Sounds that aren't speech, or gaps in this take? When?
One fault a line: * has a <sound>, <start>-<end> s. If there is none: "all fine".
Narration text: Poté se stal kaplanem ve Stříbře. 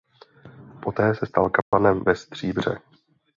* has a dropout, 1.6-1.7 s